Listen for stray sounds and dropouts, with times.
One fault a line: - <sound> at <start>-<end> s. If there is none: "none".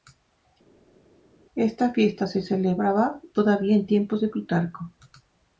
none